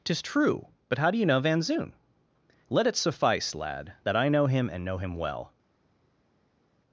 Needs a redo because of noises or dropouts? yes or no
no